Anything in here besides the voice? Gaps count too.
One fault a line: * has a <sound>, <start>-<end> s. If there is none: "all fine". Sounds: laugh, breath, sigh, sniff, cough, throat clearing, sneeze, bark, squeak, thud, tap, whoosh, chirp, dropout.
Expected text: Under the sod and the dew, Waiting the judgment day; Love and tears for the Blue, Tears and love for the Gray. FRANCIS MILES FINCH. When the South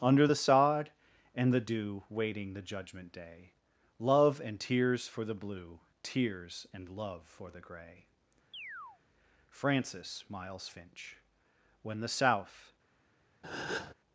* has a chirp, 8.5-9.0 s
* has a breath, 13.4-13.9 s